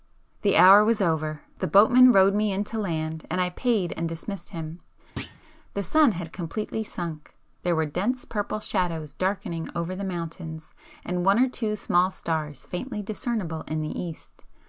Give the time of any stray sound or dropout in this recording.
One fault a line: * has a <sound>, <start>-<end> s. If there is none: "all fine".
* has a thud, 5.2-5.4 s